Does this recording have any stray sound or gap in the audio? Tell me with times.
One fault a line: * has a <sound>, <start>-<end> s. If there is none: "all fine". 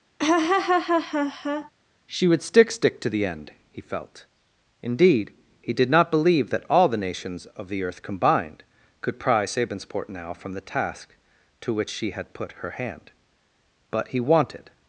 * has a laugh, 0.2-1.7 s